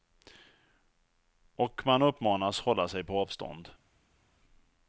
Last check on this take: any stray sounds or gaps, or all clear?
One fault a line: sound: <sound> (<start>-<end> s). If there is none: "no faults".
no faults